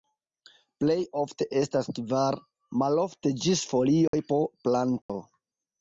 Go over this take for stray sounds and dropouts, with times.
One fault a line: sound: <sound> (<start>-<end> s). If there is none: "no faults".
sound: dropout (4.1-4.1 s)
sound: dropout (5.0-5.1 s)